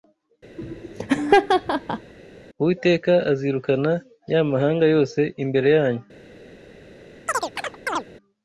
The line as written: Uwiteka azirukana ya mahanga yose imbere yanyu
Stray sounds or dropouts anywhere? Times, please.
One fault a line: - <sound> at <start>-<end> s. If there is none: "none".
- laugh at 0.6-2.1 s
- chirp at 7.3-8.1 s